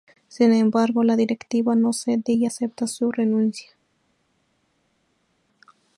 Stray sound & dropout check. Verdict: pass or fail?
pass